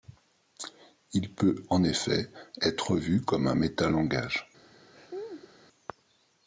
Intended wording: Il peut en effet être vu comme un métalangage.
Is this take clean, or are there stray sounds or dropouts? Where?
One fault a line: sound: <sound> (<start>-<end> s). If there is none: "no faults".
sound: laugh (4.9-5.5 s)